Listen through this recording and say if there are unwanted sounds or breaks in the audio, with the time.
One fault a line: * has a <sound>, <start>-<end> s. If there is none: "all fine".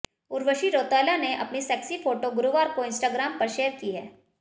all fine